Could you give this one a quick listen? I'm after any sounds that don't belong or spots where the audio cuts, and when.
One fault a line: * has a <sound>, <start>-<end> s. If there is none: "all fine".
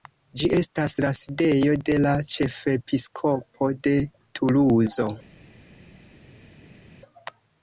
all fine